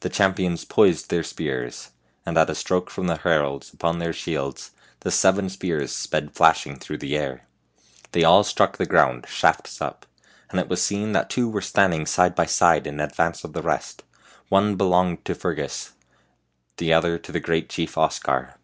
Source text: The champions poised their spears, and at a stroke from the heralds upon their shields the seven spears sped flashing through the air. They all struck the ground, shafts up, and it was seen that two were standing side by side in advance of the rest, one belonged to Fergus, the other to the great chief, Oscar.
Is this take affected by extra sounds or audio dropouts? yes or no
no